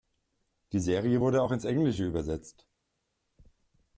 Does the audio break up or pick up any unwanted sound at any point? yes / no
no